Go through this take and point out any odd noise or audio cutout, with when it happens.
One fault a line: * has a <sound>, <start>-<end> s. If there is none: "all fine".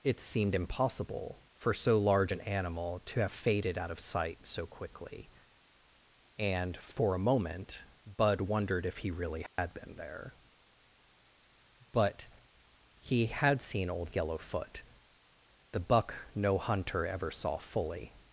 * has a dropout, 9.5-9.6 s